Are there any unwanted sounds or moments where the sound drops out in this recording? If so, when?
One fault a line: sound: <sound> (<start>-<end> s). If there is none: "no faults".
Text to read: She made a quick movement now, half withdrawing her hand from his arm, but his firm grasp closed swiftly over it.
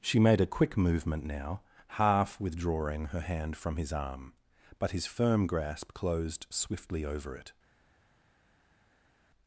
no faults